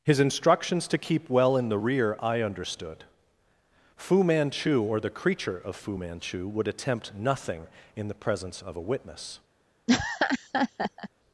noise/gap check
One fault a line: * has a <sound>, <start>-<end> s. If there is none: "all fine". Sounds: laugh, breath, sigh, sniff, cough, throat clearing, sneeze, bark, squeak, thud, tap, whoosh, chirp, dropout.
* has a laugh, 9.9-11.1 s